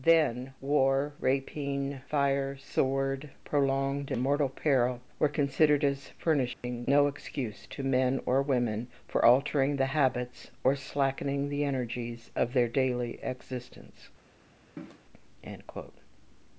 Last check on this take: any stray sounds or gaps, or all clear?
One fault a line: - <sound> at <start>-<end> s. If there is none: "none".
- dropout at 6.5-6.6 s
- cough at 14.8-15.0 s